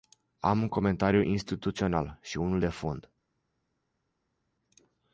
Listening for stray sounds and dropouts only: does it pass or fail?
pass